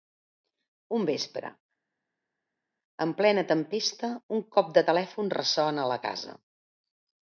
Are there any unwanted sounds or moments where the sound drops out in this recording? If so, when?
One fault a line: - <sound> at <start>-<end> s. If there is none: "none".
none